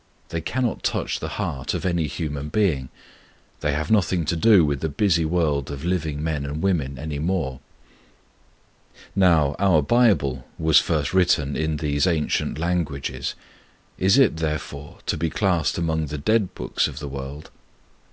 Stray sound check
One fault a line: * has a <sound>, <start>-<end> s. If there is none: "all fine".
all fine